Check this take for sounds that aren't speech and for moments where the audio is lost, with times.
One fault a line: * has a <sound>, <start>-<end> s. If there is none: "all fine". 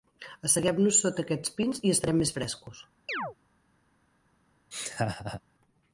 * has a chirp, 3.1-3.4 s
* has a laugh, 4.7-5.4 s